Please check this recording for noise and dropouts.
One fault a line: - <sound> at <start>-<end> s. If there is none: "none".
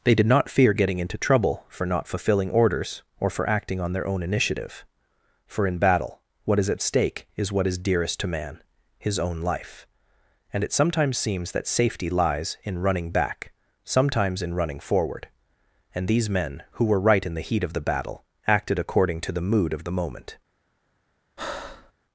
- breath at 21.4-21.9 s